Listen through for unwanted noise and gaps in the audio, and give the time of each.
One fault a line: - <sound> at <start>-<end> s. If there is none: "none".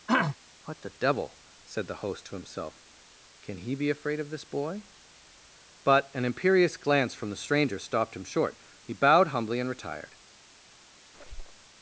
- throat clearing at 0.1-0.4 s
- squeak at 11.1-11.7 s